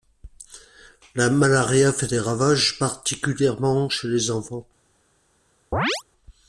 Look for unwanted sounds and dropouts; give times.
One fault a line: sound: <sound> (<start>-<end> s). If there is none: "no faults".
sound: chirp (5.7-6.0 s)